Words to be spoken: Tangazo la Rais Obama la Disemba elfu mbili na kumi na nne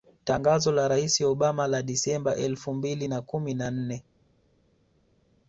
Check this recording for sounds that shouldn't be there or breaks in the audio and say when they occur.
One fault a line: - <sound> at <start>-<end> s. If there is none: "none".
none